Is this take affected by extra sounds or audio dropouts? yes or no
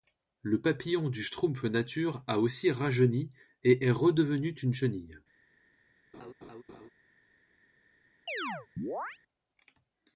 yes